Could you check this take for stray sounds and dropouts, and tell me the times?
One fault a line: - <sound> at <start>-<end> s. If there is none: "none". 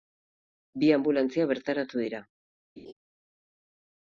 - laugh at 2.8-2.9 s